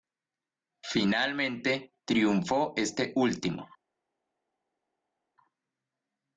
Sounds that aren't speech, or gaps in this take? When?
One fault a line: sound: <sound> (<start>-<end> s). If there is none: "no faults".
no faults